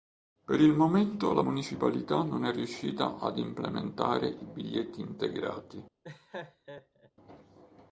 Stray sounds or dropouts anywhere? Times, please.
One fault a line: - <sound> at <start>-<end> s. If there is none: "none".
- laugh at 6.0-7.1 s